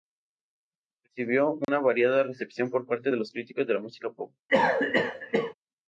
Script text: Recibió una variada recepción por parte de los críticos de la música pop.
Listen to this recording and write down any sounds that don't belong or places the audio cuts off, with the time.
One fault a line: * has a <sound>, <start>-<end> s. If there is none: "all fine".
* has a dropout, 1.6-1.7 s
* has a cough, 4.5-5.5 s